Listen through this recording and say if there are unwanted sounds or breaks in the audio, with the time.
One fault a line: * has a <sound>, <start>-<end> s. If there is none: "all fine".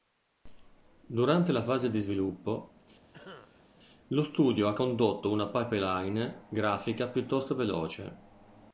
* has a cough, 3.1-3.7 s